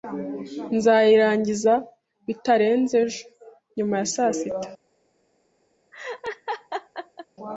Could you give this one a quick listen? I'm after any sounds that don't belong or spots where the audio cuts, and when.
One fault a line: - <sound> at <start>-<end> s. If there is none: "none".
- laugh at 5.9-7.3 s